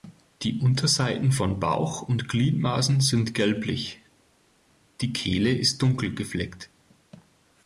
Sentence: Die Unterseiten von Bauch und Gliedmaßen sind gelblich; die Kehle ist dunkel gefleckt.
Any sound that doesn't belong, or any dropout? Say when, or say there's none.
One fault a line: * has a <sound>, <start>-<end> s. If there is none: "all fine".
all fine